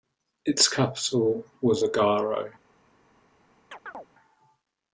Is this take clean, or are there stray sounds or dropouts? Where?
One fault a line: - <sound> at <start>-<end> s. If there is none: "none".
- chirp at 3.7-4.1 s